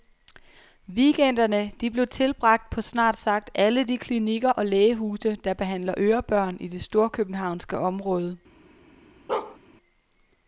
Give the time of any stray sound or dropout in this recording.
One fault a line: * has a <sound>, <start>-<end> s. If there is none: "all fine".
* has a bark, 9.3-9.6 s